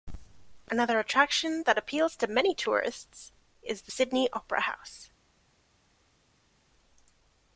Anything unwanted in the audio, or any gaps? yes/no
no